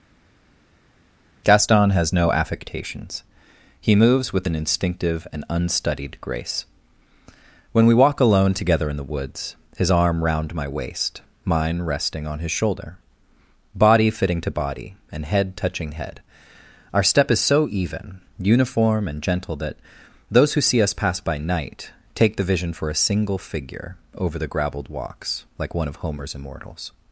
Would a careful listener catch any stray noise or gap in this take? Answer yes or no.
no